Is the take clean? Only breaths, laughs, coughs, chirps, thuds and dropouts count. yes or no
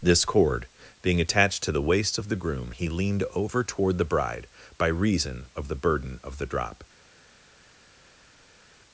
yes